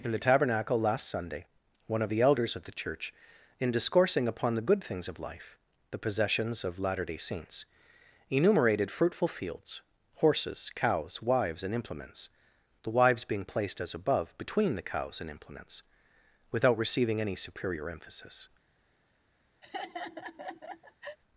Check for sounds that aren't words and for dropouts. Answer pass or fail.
fail